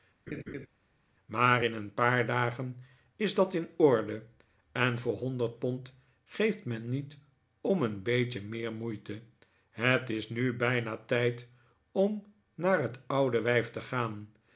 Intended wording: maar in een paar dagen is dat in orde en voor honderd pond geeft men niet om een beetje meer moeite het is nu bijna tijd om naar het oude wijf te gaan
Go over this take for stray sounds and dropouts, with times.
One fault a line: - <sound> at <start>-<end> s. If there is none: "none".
- laugh at 0.3-0.7 s